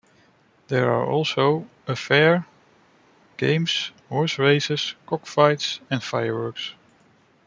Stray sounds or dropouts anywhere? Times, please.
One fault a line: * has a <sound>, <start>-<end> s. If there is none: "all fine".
all fine